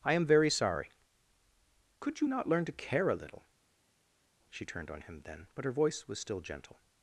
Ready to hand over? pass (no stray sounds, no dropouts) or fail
pass